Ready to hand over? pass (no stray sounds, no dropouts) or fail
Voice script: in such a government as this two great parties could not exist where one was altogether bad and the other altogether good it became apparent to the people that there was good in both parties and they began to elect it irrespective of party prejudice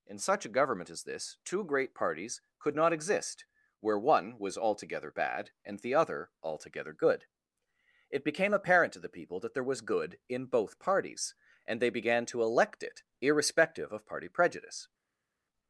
pass